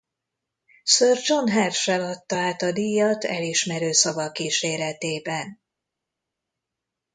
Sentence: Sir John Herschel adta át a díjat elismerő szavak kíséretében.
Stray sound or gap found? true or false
false